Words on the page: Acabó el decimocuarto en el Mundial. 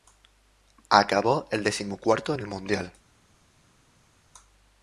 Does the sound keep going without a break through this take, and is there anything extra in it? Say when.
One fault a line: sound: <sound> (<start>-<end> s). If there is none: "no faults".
no faults